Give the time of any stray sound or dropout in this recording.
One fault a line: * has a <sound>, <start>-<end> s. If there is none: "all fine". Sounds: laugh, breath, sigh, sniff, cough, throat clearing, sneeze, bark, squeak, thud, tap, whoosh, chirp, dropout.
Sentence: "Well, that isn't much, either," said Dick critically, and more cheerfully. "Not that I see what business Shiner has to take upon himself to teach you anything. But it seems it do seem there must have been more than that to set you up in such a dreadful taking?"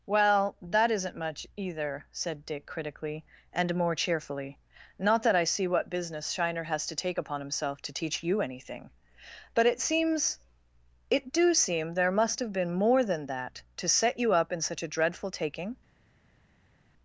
all fine